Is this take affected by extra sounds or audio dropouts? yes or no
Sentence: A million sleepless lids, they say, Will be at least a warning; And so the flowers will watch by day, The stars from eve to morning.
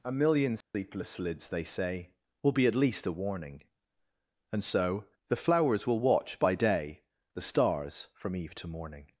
yes